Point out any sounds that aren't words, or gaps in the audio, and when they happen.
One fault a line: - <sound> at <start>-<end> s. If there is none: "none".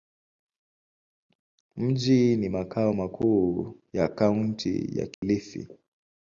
- dropout at 5.1-5.2 s